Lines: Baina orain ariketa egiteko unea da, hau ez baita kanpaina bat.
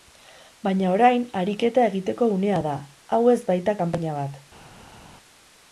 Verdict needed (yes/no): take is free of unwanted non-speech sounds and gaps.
yes